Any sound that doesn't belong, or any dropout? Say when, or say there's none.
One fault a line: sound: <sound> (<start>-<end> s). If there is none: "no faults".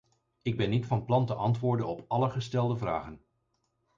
no faults